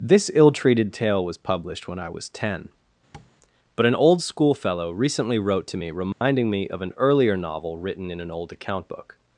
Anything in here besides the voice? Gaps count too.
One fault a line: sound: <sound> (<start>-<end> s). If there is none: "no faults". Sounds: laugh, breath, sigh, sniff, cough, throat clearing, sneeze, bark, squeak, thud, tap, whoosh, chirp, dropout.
sound: tap (3.1-3.3 s)
sound: dropout (6.1-6.2 s)